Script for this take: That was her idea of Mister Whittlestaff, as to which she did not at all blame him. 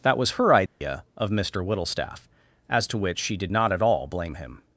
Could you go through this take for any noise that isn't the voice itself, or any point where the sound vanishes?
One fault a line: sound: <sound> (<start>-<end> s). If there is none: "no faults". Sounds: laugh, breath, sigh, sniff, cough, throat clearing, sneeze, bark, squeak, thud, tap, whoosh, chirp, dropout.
sound: dropout (0.7-0.8 s)